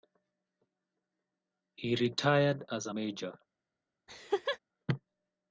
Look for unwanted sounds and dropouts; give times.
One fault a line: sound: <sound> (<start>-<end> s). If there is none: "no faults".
sound: laugh (4.1-4.6 s)